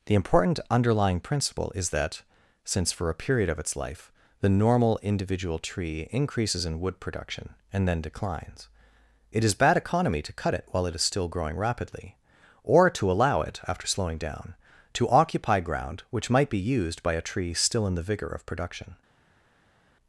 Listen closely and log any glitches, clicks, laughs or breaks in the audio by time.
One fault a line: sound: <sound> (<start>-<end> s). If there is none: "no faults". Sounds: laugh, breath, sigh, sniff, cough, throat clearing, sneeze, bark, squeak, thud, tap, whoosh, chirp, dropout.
no faults